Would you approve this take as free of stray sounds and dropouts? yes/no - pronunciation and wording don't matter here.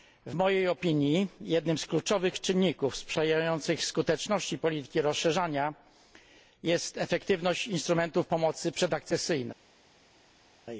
yes